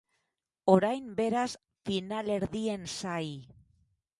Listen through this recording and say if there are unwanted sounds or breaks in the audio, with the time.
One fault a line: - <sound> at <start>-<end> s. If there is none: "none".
none